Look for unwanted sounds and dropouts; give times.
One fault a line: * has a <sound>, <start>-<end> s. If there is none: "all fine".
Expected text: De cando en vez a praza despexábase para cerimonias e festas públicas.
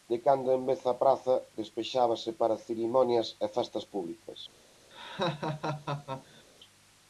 * has a laugh, 4.9-6.4 s